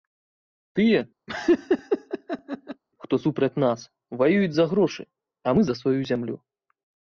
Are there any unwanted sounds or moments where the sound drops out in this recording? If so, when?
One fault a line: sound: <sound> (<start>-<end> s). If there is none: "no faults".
sound: laugh (1.3-2.8 s)